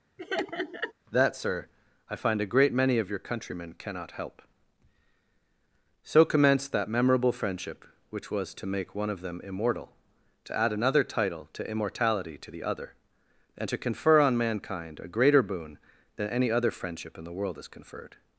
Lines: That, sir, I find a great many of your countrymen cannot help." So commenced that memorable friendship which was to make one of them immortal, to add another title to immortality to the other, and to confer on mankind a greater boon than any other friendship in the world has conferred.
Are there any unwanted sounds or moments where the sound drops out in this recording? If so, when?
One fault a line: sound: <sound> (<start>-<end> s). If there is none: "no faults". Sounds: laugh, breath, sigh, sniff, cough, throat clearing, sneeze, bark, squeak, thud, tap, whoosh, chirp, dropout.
sound: laugh (0.2-0.9 s)